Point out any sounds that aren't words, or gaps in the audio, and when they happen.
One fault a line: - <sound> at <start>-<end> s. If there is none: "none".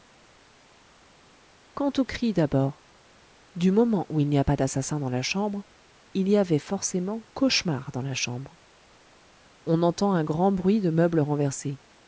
none